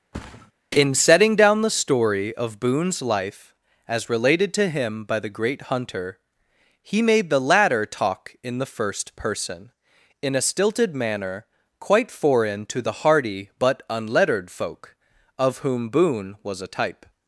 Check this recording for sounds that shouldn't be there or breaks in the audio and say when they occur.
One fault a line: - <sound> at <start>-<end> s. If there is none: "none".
- thud at 0.1-0.5 s